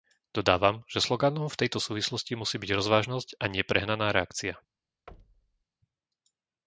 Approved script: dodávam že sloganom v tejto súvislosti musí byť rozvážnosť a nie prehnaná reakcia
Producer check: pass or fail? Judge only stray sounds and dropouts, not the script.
fail